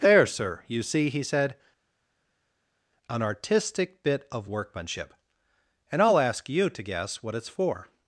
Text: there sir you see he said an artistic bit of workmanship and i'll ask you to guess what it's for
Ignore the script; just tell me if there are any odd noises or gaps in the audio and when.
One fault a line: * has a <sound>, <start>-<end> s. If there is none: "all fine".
all fine